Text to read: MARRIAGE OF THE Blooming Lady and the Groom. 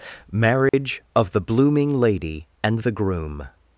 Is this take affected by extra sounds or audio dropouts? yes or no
yes